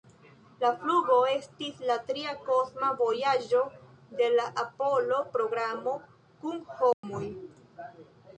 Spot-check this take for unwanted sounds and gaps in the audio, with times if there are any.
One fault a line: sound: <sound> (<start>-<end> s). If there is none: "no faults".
sound: dropout (6.9-7.0 s)